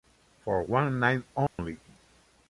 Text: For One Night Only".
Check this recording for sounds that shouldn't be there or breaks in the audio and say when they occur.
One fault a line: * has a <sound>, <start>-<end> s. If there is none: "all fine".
* has a dropout, 1.5-1.6 s